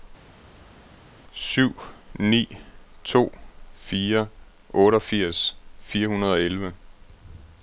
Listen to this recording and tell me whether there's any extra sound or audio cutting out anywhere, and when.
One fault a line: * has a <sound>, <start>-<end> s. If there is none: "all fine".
all fine